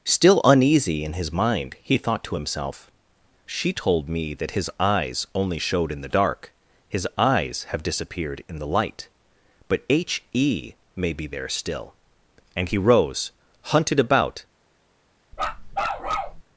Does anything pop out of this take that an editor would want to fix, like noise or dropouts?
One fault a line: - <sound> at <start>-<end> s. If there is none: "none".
- bark at 15.3-16.4 s